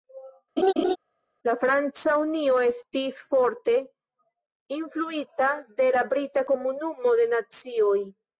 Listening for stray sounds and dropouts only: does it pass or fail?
fail